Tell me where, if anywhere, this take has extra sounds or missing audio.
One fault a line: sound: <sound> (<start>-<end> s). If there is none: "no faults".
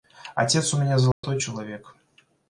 sound: dropout (1.1-1.2 s)